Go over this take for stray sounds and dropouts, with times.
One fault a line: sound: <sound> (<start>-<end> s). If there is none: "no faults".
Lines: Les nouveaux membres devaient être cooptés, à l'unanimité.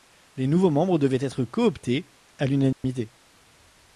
sound: dropout (2.7-2.8 s)